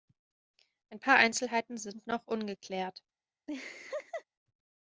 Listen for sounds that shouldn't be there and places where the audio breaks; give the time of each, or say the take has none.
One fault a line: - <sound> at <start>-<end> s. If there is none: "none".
- laugh at 3.5-4.2 s